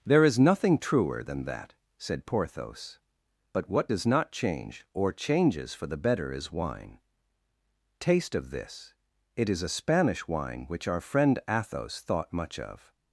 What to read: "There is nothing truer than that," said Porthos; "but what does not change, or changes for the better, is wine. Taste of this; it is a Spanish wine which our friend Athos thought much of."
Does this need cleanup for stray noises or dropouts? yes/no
no